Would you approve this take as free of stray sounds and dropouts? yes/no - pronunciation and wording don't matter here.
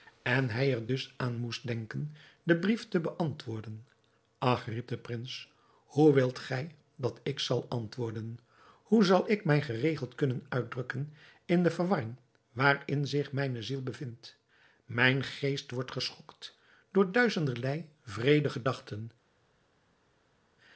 yes